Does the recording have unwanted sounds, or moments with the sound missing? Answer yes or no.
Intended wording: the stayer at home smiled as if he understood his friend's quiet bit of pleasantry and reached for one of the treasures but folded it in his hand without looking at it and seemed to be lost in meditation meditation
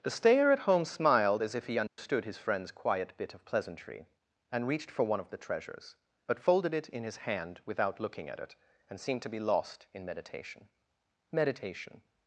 yes